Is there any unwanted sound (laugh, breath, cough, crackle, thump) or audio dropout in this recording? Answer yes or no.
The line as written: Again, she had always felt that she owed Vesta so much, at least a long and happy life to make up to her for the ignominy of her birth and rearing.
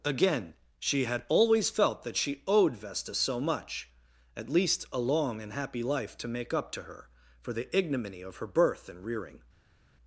no